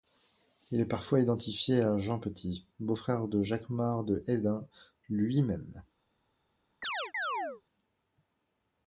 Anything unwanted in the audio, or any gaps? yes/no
yes